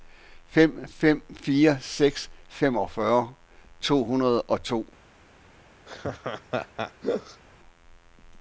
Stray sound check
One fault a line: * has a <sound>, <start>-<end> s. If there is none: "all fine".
* has a laugh, 5.9-7.4 s